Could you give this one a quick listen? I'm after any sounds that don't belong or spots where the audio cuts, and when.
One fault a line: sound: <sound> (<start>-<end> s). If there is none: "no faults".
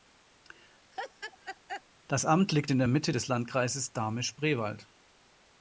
sound: laugh (0.9-1.8 s)